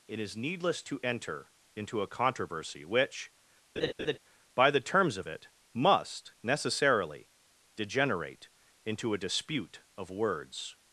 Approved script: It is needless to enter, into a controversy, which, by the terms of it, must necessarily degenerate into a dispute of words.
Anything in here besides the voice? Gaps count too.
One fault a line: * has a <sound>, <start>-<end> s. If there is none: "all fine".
* has a laugh, 3.8-4.2 s